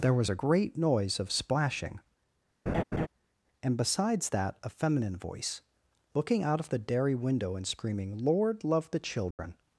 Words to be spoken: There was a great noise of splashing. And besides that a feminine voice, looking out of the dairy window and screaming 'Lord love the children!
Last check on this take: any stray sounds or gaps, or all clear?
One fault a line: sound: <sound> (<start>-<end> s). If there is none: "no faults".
sound: laugh (2.7-3.1 s)
sound: dropout (9.3-9.4 s)